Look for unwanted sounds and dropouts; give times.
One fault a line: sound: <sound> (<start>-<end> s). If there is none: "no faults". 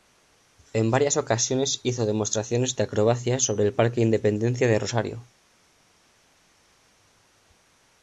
no faults